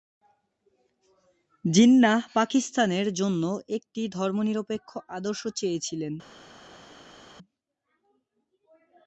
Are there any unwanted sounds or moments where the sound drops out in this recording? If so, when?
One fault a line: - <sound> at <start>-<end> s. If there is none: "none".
none